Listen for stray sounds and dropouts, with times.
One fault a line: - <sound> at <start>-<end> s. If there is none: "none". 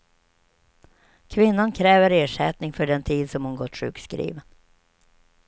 none